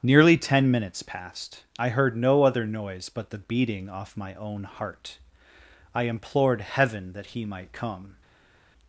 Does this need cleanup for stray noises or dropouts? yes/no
no